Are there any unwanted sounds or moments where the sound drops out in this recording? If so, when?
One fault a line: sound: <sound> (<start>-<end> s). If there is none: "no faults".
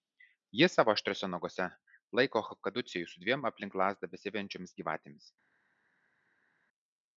no faults